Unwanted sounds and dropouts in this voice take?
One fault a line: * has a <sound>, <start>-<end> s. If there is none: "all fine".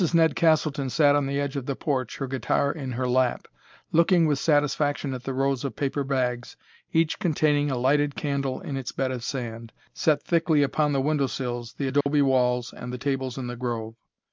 * has a dropout, 12.0-12.1 s